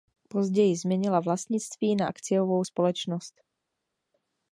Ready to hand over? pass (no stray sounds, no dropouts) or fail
pass